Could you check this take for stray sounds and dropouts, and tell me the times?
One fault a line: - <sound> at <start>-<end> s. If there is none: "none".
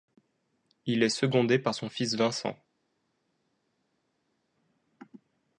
none